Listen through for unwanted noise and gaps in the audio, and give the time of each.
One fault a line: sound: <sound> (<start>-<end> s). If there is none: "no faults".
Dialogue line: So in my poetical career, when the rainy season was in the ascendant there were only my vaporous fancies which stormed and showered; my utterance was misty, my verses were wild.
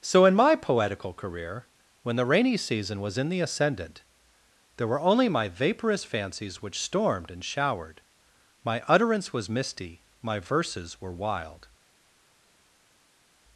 no faults